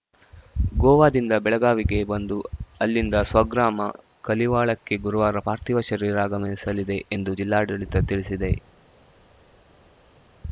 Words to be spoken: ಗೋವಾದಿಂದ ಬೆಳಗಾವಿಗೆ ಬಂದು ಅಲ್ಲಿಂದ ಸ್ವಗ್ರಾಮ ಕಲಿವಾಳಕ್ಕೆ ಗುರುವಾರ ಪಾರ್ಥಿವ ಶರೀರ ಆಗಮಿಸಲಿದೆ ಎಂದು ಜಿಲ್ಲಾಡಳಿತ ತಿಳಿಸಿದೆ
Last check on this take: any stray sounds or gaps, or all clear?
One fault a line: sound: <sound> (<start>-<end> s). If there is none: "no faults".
no faults